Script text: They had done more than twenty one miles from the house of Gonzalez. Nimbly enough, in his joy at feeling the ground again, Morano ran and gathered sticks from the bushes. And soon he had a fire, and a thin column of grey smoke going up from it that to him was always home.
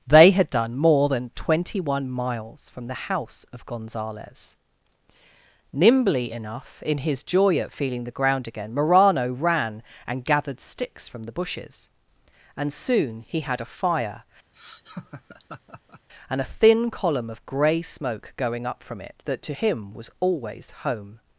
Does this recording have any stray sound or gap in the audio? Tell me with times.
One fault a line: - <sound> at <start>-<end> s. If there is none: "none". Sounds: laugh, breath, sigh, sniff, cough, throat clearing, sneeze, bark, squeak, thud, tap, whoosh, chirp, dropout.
- laugh at 14.5-16.1 s